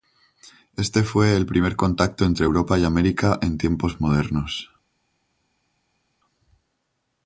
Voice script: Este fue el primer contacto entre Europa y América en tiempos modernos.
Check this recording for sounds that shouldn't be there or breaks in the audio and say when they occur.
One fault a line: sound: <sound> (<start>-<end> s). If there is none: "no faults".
no faults